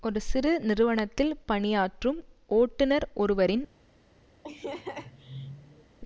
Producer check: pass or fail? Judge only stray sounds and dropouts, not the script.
fail